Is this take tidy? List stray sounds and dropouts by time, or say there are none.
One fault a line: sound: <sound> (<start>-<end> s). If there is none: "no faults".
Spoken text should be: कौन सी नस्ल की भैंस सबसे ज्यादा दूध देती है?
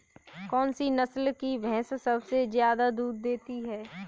no faults